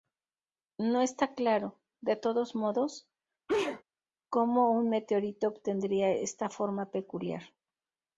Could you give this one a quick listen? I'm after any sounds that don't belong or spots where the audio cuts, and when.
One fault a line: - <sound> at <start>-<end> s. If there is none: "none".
- sneeze at 3.5-3.8 s